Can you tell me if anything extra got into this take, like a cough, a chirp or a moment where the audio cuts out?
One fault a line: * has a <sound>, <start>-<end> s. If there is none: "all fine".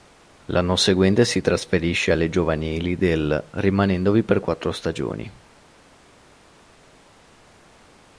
all fine